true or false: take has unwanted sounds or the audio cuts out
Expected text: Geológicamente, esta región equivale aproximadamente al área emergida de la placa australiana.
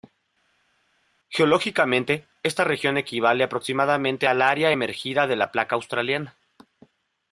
false